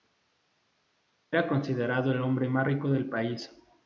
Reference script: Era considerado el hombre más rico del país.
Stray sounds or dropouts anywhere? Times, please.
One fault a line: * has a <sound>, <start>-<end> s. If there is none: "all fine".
all fine